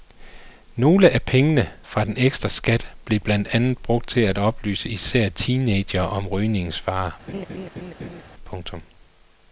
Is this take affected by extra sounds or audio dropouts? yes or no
yes